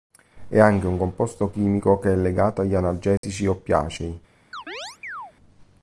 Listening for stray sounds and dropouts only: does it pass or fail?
fail